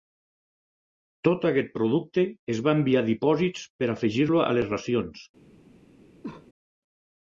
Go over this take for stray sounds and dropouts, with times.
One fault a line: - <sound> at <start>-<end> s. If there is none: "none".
- cough at 6.2-6.5 s